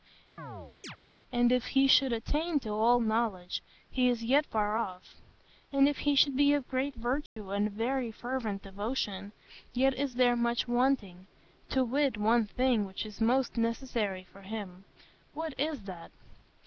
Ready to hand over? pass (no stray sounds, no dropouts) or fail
fail